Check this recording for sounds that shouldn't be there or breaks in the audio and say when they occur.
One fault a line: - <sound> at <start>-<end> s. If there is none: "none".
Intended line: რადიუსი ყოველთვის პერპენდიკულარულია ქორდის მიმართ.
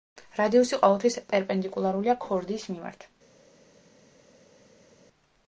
none